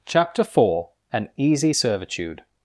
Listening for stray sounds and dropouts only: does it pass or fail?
pass